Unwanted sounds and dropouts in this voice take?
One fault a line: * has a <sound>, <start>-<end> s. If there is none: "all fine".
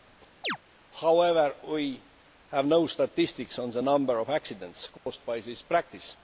* has a chirp, 0.4-0.6 s
* has a dropout, 5.0-5.1 s